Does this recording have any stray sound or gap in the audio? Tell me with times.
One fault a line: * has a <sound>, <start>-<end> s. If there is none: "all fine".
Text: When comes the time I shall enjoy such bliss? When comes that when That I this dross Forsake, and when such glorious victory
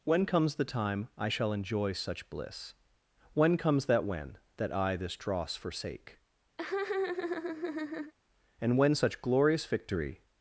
* has a laugh, 6.6-8.1 s